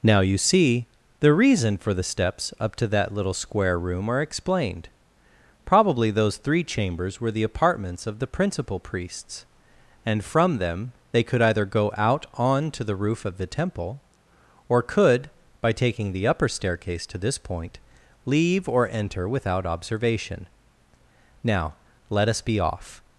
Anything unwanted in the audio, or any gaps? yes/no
no